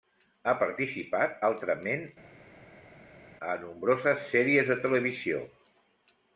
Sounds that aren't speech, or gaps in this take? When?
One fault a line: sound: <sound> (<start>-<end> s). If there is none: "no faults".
no faults